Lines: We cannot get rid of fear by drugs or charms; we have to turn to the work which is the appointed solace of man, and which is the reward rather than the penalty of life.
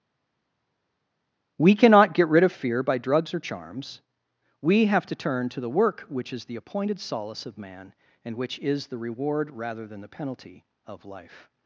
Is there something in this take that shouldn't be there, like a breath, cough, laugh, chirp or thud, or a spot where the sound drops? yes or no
no